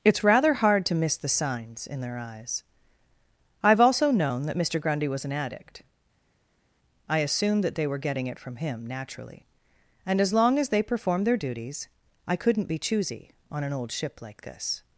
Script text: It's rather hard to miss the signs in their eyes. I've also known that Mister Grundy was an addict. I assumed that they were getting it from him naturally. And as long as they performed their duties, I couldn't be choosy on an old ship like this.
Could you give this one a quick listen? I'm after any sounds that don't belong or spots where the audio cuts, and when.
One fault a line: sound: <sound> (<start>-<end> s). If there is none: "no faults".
no faults